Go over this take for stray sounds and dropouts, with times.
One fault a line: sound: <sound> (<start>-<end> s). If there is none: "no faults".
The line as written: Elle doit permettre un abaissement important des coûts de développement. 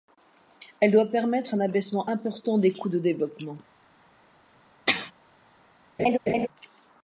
sound: sneeze (4.9-5.1 s)
sound: laugh (6.0-6.5 s)